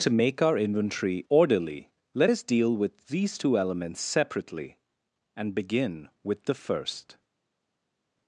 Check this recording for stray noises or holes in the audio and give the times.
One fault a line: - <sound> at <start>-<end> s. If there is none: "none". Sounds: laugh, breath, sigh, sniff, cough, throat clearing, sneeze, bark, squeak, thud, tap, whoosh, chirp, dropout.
none